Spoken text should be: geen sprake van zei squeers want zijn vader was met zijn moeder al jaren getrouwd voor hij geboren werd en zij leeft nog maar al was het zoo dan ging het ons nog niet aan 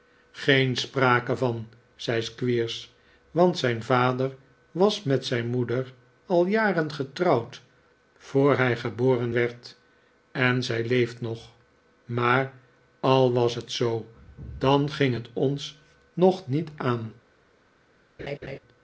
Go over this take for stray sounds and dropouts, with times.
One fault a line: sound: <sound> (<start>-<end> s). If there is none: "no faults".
sound: laugh (18.2-18.6 s)